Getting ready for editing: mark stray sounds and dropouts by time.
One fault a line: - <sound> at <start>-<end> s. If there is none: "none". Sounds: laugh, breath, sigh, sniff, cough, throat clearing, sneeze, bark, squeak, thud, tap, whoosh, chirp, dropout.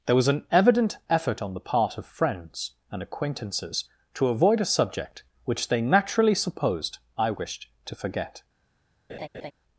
- laugh at 9.1-9.5 s